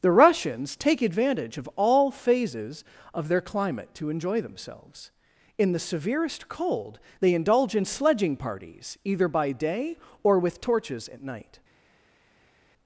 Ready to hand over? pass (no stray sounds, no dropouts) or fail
pass